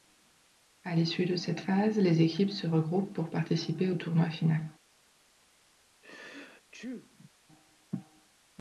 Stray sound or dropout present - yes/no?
yes